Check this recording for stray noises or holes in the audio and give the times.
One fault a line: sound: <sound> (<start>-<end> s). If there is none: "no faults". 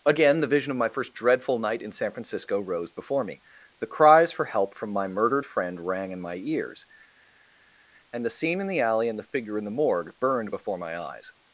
no faults